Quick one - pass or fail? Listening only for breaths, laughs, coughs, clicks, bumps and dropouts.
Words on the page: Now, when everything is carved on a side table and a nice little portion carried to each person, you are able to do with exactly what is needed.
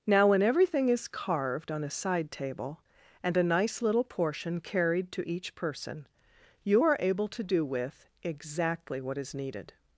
pass